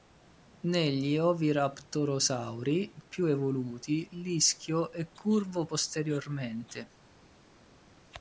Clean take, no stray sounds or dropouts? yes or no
yes